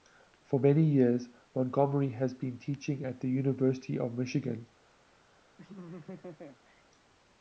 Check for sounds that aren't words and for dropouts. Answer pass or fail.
fail